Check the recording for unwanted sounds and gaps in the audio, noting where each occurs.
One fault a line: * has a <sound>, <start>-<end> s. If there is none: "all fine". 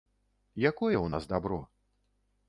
all fine